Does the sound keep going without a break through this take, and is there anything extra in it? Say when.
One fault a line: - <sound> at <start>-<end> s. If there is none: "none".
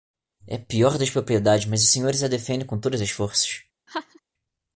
- laugh at 3.9-4.2 s